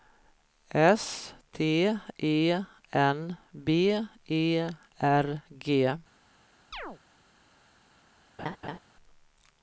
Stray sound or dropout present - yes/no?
yes